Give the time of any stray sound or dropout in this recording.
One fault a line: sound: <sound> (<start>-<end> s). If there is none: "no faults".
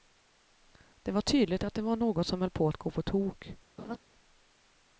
sound: laugh (3.8-4.0 s)